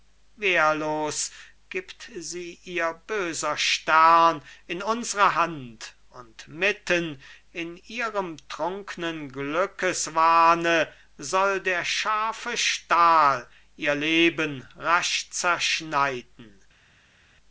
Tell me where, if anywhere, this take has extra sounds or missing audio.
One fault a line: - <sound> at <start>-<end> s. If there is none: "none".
none